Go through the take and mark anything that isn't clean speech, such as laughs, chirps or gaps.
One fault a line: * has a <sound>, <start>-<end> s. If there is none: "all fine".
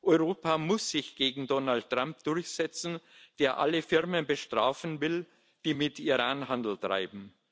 all fine